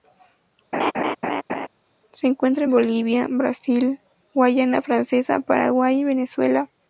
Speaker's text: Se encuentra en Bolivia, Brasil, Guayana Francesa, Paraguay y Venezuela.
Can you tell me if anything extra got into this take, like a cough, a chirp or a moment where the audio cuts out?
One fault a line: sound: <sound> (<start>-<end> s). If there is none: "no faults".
sound: laugh (0.7-1.7 s)